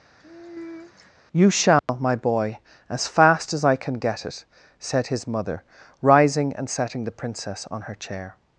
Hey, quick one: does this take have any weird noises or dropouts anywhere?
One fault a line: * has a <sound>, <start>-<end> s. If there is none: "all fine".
* has a sigh, 0.2-1.1 s
* has a dropout, 1.8-1.9 s